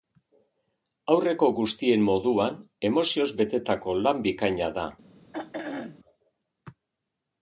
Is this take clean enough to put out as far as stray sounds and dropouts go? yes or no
no